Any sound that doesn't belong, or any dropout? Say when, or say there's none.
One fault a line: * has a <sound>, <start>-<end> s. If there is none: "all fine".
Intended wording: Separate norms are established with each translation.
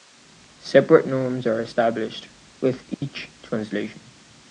* has a dropout, 2.9-3.0 s